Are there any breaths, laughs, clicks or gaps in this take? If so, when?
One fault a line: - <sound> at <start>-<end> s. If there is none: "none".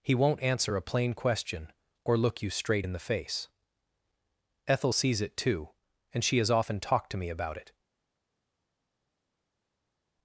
none